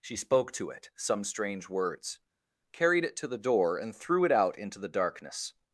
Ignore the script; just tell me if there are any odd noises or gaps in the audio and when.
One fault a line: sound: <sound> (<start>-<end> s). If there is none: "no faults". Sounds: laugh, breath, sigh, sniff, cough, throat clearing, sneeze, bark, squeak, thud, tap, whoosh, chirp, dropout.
no faults